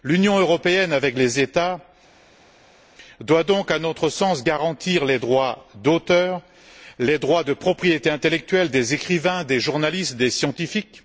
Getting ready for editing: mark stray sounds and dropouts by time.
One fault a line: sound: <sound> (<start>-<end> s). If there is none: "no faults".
no faults